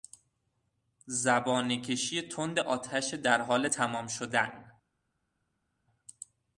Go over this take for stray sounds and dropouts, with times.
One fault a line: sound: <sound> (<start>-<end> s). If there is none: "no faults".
no faults